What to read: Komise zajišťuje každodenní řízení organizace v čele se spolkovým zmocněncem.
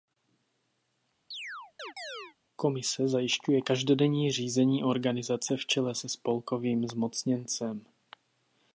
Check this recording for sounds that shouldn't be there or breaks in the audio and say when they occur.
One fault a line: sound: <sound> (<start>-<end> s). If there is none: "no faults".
sound: chirp (1.3-2.4 s)